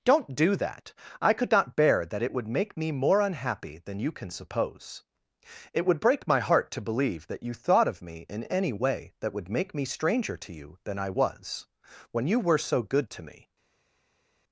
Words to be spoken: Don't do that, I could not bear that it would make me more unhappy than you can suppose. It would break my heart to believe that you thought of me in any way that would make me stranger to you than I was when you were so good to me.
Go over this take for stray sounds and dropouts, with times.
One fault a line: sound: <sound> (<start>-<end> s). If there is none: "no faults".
no faults